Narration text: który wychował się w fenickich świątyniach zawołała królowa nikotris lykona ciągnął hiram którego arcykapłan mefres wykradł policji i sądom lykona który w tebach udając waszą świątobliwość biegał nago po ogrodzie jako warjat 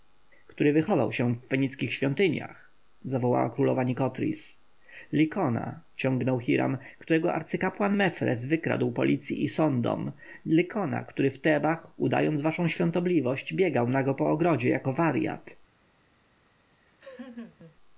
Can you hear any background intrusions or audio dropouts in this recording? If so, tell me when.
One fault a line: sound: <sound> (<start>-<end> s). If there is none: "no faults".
sound: laugh (16.7-17.8 s)